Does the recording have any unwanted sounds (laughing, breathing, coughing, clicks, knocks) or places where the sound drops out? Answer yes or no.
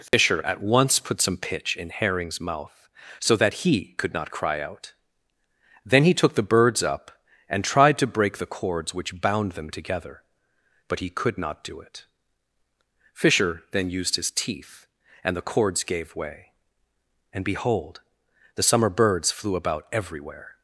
yes